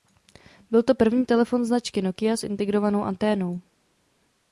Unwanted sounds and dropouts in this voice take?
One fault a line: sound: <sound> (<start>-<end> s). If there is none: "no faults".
no faults